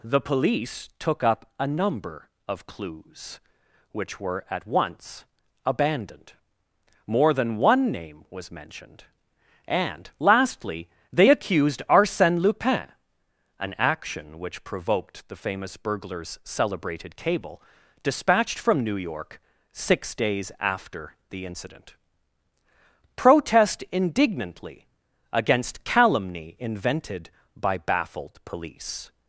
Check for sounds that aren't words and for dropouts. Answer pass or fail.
pass